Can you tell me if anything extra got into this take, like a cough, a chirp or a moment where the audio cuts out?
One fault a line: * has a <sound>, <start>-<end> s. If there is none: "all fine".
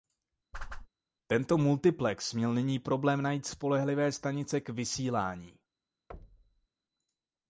* has a whoosh, 0.5-0.9 s
* has a thud, 6.1-6.7 s